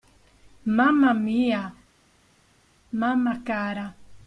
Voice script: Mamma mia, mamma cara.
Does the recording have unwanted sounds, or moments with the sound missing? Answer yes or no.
no